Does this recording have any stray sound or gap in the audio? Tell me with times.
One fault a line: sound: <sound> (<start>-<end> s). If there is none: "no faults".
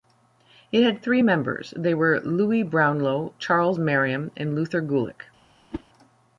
sound: whoosh (5.7-5.8 s)